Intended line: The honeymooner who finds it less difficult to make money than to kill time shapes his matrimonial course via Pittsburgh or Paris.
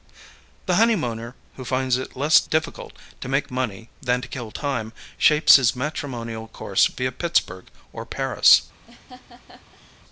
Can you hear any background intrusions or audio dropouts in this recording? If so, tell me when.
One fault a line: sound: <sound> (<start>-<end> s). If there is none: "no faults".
sound: laugh (8.9-10.0 s)